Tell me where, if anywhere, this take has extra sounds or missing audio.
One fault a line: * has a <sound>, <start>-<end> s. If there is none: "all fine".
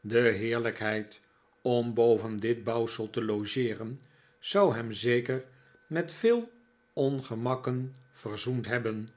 all fine